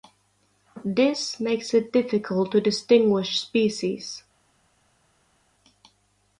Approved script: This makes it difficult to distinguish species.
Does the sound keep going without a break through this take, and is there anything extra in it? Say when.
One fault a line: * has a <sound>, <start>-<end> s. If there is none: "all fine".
all fine